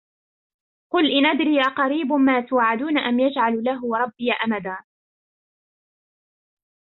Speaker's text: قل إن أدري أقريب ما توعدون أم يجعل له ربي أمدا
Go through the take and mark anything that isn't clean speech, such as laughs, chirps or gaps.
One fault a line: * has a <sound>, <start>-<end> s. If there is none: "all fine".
all fine